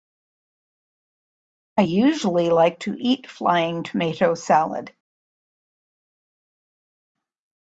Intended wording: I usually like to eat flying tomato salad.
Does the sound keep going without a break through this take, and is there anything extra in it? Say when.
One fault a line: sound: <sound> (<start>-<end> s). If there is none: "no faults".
no faults